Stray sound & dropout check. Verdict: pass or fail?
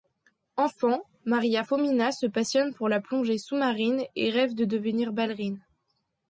pass